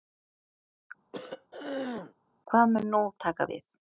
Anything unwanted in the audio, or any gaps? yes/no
yes